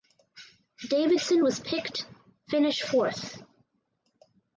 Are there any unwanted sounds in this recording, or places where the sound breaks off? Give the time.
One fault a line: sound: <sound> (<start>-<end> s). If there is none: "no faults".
no faults